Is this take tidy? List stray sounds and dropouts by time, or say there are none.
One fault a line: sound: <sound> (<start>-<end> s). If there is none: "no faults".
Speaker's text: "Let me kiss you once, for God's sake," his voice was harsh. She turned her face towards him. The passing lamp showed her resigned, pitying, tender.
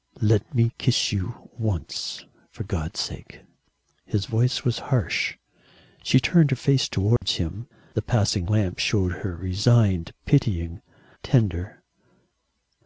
sound: dropout (7.2-7.2 s)